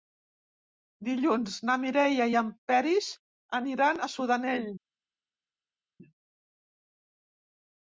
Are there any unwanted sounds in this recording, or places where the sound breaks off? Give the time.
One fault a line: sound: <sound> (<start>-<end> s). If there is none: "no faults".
no faults